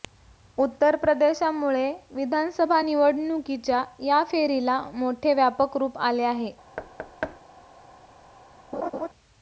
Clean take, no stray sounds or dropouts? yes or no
no